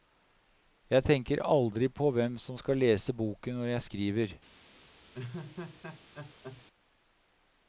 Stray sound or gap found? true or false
true